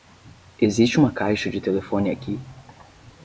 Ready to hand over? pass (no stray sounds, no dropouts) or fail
pass